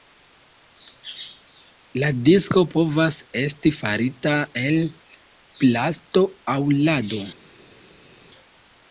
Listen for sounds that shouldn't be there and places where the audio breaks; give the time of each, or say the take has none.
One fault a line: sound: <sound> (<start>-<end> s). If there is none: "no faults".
no faults